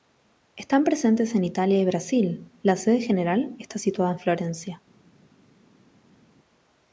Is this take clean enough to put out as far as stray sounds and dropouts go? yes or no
yes